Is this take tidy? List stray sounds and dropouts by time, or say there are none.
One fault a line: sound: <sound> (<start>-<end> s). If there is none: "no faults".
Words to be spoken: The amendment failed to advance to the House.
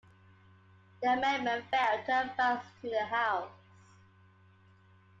no faults